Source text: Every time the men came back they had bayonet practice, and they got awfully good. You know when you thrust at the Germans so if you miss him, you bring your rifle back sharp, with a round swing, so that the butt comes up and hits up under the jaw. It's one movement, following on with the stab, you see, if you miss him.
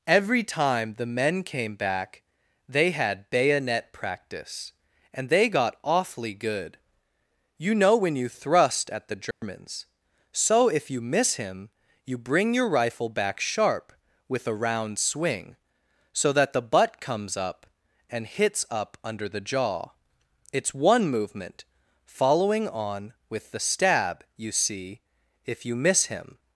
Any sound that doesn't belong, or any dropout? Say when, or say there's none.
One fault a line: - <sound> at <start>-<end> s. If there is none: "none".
- dropout at 9.3-9.4 s